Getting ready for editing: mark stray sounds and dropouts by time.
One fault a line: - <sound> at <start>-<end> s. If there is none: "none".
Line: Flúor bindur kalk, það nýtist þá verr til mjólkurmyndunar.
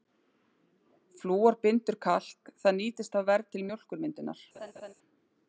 - laugh at 4.5-4.9 s